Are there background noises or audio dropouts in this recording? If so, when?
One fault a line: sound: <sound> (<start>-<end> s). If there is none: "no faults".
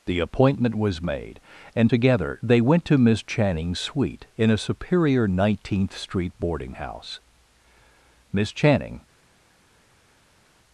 no faults